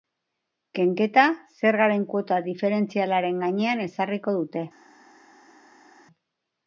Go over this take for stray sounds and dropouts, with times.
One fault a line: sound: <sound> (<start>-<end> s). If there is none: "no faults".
no faults